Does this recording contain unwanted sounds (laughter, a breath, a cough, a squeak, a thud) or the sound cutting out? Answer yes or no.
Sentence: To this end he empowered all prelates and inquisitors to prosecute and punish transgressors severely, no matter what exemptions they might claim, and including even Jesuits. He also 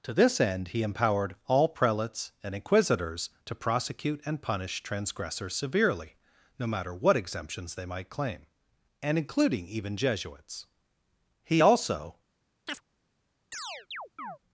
yes